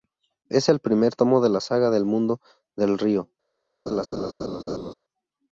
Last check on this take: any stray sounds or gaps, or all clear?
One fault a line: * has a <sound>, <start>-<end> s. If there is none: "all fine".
* has a laugh, 3.9-4.9 s